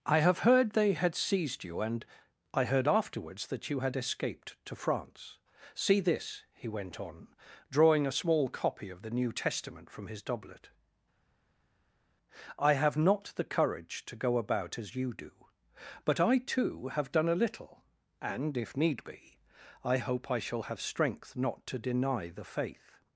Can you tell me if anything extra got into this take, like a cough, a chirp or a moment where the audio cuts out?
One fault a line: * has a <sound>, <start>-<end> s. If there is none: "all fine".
all fine